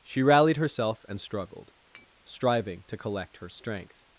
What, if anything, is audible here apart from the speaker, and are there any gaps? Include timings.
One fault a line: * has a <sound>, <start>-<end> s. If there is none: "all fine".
* has a tap, 1.9-2.1 s